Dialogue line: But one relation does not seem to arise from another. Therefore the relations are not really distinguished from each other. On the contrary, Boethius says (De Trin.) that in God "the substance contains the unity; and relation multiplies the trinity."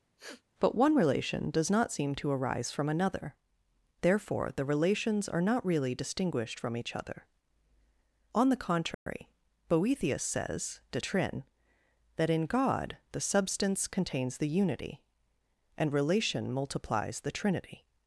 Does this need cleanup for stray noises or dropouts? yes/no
yes